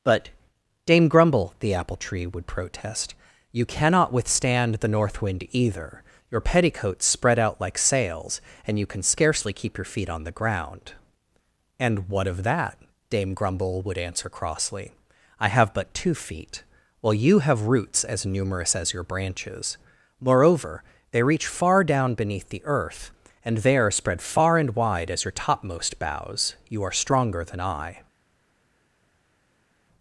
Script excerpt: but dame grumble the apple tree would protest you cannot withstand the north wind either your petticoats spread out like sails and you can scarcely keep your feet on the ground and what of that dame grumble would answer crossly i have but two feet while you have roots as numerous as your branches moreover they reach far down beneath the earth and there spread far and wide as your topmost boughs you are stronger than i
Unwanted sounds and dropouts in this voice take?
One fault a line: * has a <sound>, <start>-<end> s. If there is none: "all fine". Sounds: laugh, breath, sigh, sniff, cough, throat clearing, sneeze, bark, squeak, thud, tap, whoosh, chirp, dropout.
all fine